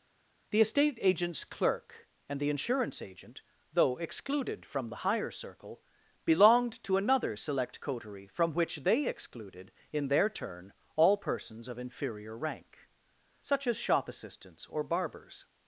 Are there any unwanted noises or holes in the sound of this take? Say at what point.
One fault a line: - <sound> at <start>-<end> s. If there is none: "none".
none